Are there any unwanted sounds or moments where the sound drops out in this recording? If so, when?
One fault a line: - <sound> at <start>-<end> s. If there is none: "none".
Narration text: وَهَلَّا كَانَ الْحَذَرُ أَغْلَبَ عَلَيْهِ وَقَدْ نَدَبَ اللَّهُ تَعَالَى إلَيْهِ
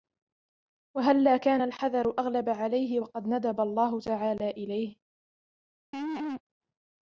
- laugh at 5.9-6.4 s